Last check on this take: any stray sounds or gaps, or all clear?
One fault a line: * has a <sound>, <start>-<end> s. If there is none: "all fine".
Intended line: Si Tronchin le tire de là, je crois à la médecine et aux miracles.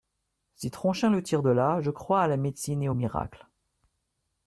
all fine